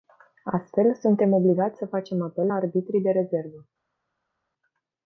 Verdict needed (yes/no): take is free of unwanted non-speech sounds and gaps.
yes